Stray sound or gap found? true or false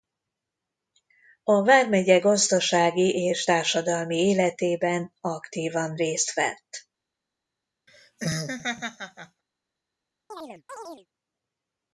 true